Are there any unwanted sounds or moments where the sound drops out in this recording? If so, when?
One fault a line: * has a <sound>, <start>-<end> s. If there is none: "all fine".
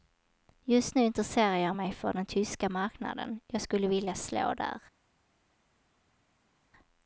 all fine